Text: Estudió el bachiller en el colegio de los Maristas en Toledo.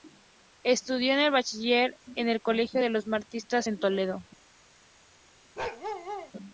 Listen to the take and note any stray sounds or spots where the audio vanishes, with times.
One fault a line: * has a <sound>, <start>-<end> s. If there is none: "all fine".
* has a bark, 5.6-6.3 s